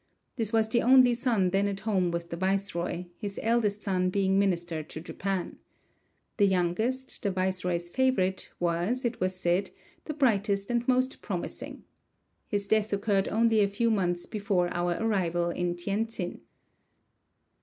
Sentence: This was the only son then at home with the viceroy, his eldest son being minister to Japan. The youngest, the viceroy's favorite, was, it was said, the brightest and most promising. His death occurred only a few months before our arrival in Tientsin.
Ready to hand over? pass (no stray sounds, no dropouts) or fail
pass